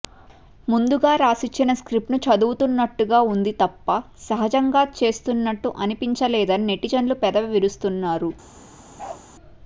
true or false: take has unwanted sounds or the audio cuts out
true